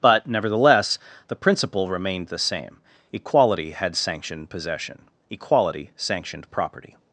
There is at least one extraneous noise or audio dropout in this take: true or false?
false